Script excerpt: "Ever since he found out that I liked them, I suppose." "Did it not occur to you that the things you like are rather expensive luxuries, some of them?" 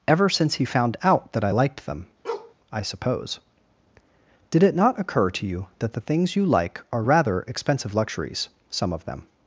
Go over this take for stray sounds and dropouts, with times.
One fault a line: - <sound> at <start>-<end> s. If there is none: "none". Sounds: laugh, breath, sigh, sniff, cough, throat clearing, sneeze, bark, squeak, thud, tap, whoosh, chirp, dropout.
- bark at 2.2-2.5 s